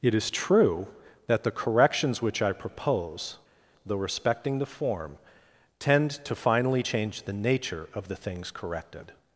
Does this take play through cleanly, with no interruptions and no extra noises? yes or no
yes